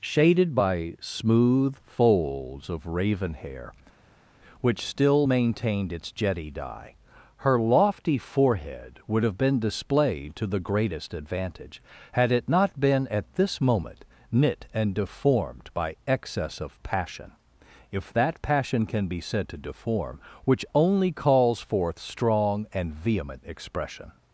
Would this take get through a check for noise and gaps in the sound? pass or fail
pass